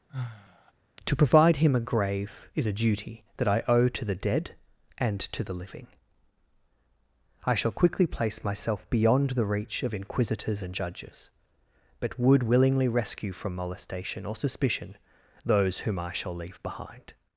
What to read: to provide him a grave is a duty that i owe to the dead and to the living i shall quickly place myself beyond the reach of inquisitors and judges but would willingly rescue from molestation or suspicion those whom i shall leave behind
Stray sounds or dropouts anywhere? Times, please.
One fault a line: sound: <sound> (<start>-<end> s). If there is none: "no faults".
sound: sigh (0.1-0.7 s)